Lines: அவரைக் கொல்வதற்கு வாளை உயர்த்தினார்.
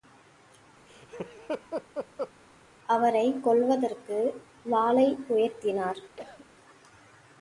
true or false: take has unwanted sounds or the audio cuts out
true